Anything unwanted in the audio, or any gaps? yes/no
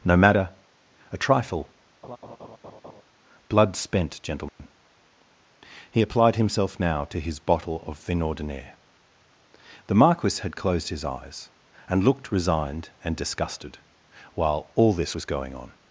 yes